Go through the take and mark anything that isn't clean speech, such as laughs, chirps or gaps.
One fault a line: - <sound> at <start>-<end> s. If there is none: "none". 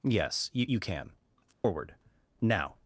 - dropout at 1.5-1.6 s